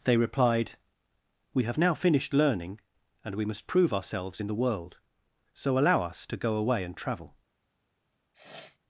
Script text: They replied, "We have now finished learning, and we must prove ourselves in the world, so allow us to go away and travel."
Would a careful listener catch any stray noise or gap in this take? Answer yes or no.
yes